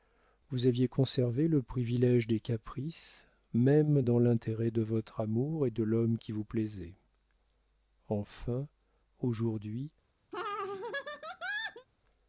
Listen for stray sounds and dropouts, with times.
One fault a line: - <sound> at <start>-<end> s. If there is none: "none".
- laugh at 10.3-11.9 s